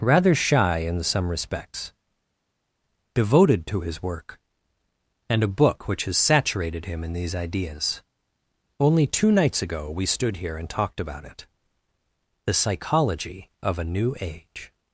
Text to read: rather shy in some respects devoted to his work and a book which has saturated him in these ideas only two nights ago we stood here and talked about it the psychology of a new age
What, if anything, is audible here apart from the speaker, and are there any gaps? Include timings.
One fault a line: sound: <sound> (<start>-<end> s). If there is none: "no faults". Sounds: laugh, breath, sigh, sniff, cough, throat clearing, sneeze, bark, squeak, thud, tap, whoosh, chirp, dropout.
no faults